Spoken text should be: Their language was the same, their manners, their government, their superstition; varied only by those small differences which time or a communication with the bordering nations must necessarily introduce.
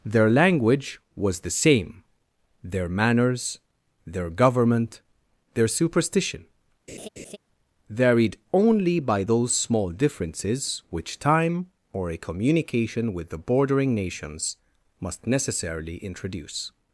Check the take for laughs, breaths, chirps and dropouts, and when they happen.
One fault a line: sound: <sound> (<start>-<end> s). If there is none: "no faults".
sound: laugh (6.9-7.4 s)